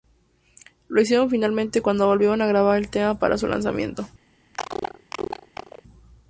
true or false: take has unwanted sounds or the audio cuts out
true